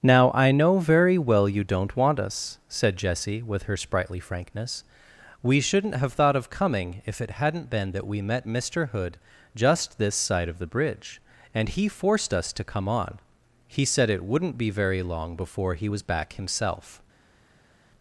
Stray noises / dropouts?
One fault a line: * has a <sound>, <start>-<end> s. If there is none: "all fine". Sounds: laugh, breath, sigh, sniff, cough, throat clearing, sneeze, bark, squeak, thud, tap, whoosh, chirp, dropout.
all fine